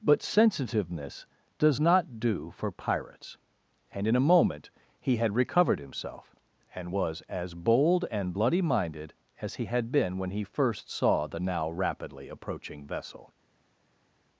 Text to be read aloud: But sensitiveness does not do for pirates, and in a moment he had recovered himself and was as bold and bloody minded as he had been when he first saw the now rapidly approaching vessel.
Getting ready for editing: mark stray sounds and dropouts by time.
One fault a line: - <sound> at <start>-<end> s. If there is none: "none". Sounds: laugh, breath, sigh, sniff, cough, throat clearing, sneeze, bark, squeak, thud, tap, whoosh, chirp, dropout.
none